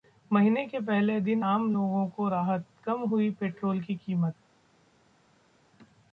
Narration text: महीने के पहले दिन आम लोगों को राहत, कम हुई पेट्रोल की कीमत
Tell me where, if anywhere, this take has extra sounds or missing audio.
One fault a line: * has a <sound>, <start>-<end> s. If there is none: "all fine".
all fine